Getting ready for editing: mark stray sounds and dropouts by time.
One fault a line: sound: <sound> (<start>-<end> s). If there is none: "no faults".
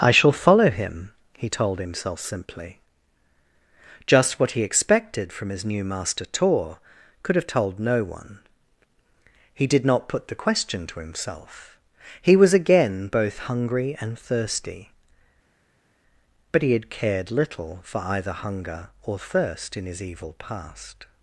no faults